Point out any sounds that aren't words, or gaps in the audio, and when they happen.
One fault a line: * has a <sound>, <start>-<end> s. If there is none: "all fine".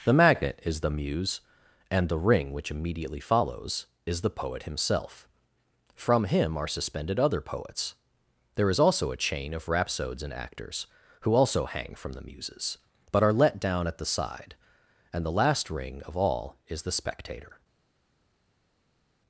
all fine